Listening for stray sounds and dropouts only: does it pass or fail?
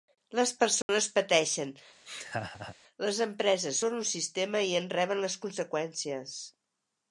fail